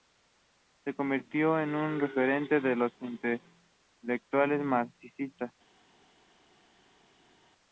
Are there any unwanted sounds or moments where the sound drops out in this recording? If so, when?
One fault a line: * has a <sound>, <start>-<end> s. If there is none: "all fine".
all fine